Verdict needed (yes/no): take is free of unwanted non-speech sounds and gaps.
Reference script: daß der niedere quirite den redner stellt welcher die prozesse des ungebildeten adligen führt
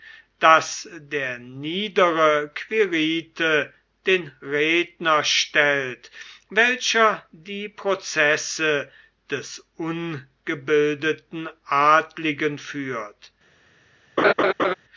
no